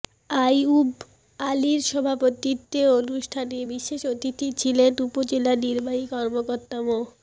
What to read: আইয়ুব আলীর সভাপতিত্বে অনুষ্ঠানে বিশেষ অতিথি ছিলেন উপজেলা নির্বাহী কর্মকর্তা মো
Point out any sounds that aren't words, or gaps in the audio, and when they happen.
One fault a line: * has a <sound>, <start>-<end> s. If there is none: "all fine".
all fine